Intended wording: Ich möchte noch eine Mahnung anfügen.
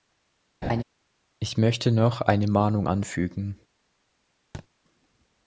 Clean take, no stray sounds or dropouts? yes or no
no